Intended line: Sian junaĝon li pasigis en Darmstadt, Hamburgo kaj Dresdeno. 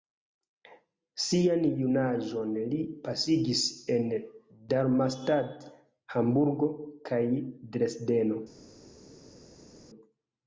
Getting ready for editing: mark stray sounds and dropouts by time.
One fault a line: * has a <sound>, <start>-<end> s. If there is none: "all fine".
all fine